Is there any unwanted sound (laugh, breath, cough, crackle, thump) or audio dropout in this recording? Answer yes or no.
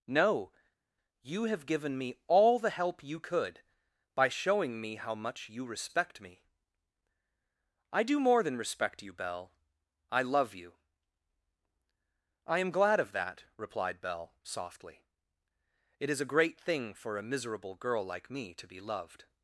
no